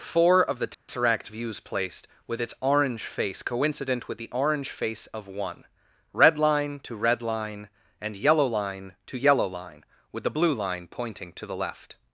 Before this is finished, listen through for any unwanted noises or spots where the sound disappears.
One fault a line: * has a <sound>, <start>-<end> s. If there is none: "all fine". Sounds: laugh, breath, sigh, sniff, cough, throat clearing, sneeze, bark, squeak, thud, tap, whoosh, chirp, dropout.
* has a dropout, 0.7-0.9 s